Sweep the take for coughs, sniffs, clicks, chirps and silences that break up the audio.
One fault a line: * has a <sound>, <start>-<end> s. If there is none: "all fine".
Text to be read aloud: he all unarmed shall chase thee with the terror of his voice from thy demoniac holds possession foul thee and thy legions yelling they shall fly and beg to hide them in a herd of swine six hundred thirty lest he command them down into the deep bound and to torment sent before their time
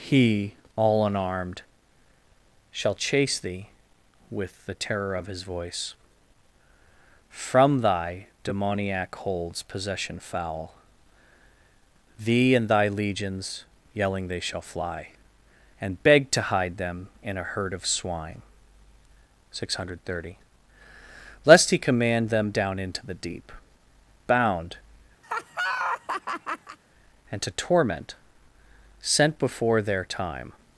* has a laugh, 25.2-26.8 s